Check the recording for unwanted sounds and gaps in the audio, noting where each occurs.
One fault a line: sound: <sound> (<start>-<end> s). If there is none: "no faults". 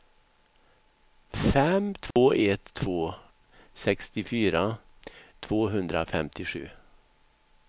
sound: dropout (2.1-2.2 s)